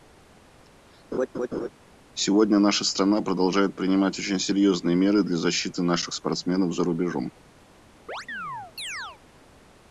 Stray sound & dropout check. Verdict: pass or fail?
fail